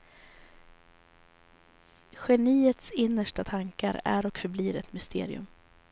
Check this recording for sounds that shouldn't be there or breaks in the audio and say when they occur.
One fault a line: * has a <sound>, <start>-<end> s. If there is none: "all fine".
all fine